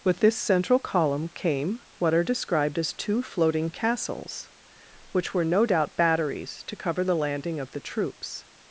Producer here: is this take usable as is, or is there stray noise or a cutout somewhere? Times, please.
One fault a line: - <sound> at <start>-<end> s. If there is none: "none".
none